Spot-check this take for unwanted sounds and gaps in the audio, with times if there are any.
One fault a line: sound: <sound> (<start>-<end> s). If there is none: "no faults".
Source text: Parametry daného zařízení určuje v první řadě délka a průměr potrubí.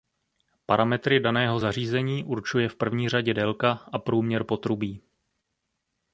no faults